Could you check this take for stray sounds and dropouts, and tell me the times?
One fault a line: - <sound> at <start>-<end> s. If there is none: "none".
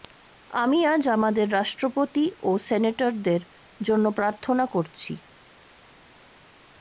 none